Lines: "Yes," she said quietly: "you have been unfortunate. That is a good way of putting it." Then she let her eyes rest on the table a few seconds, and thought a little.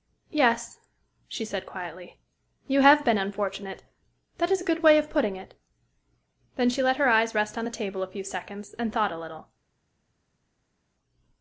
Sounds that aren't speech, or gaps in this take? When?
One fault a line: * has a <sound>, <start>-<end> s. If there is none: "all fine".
all fine